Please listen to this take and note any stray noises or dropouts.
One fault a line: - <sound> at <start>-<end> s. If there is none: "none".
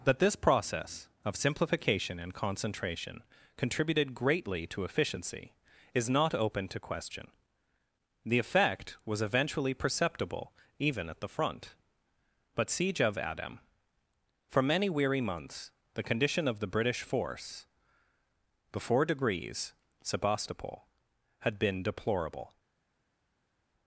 none